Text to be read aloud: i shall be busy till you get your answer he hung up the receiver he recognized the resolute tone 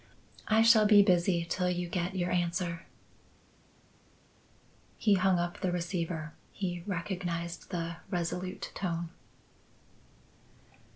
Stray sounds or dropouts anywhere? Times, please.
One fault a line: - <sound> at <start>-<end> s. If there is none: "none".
none